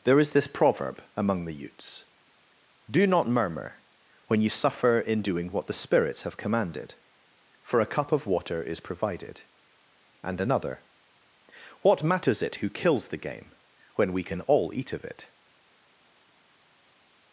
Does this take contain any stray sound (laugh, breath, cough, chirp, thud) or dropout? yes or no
no